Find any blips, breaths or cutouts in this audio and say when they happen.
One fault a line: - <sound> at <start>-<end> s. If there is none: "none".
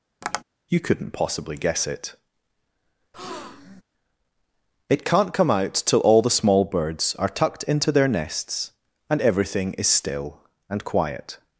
- tap at 0.2-0.4 s
- breath at 3.1-3.8 s